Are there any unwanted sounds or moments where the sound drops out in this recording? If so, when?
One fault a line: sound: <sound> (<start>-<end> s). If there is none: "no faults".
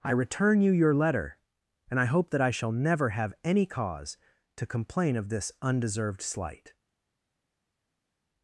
no faults